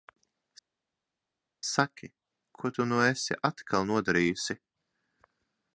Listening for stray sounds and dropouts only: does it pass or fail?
pass